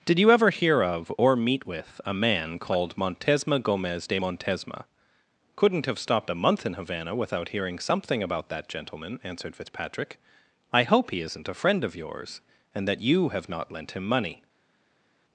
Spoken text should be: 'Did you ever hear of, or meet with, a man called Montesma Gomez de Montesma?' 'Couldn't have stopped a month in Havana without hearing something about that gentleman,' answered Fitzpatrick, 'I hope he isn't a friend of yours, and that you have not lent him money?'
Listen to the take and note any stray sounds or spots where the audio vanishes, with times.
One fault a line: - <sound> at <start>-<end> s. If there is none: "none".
none